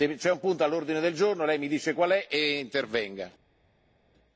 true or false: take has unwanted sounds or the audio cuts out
false